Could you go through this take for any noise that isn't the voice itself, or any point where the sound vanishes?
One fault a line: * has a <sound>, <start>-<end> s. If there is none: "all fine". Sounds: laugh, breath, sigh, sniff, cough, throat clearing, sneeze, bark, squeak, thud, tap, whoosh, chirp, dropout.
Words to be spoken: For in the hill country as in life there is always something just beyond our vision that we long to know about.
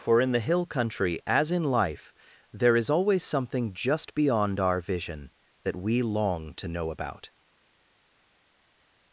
all fine